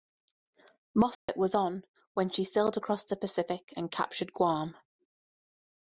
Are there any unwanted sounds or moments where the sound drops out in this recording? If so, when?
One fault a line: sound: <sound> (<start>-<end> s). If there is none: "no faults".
sound: dropout (1.1-1.3 s)